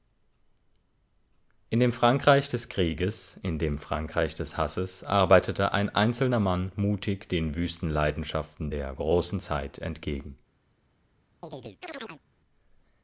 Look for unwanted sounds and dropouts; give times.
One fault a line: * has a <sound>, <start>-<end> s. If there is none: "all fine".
* has a chirp, 11.4-12.2 s